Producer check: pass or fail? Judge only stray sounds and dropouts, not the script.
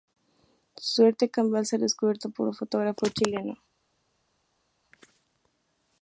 pass